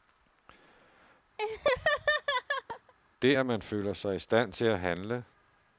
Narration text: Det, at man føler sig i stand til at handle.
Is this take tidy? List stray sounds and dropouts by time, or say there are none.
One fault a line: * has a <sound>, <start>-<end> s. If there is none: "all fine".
* has a laugh, 1.4-2.9 s